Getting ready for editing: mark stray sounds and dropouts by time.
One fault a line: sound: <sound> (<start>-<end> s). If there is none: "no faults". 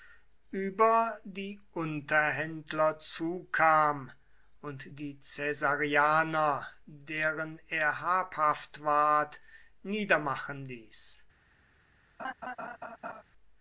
sound: laugh (12.2-13.2 s)